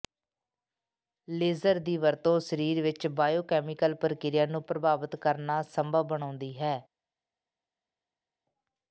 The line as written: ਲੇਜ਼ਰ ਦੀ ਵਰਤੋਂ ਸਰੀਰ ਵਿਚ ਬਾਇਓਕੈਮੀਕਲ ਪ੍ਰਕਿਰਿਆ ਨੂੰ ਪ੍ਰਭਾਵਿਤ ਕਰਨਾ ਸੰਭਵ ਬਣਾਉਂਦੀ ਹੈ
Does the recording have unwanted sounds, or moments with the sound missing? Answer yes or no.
no